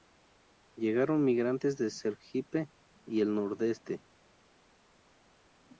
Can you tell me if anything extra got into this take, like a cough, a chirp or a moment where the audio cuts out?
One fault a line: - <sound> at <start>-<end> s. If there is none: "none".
none